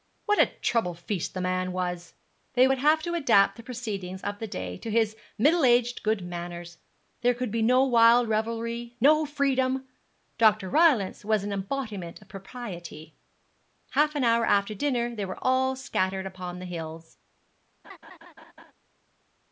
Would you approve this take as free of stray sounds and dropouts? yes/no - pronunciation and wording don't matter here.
no